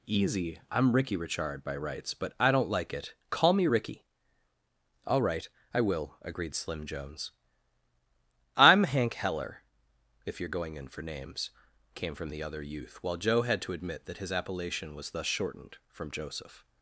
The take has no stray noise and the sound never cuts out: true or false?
true